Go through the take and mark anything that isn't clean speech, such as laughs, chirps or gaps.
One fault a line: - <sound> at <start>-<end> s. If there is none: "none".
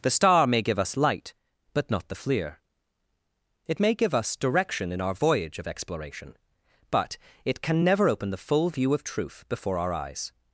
none